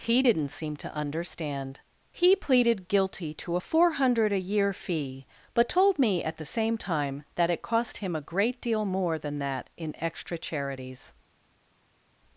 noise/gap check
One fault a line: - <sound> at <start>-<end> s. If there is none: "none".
none